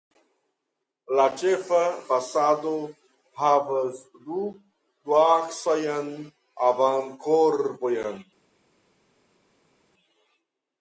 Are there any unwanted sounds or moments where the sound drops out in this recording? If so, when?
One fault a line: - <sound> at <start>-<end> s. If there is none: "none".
none